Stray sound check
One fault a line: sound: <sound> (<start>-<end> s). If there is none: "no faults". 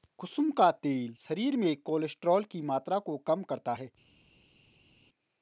no faults